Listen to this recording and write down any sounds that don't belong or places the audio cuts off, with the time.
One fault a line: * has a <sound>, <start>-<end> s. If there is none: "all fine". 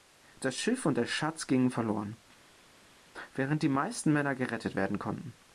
all fine